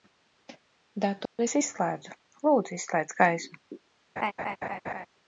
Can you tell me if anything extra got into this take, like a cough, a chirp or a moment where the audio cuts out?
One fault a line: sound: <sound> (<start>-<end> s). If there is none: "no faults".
sound: dropout (1.3-1.4 s)
sound: laugh (4.2-5.1 s)